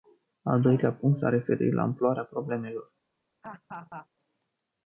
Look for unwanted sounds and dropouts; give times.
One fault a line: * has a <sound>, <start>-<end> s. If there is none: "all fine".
* has a laugh, 3.4-4.1 s